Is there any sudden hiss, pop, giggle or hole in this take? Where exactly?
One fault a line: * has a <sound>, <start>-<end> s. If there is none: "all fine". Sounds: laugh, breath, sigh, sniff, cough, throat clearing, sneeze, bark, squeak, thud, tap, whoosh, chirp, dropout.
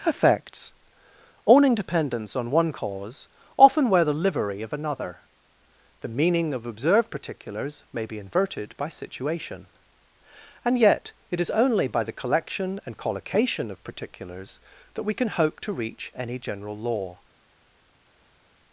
all fine